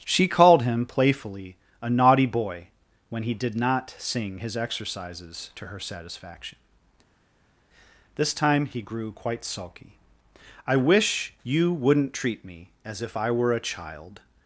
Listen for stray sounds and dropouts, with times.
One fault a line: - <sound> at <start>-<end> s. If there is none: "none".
none